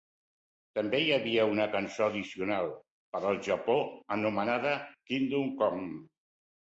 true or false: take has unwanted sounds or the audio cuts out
false